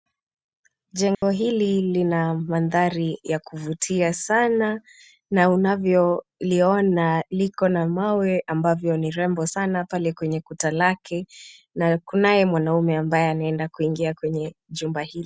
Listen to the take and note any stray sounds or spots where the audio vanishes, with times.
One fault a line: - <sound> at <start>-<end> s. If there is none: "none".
- dropout at 1.1-1.2 s